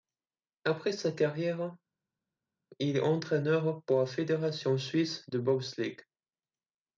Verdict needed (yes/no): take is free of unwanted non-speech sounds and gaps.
yes